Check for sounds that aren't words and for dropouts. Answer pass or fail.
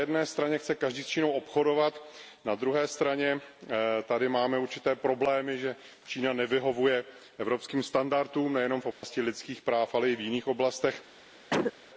fail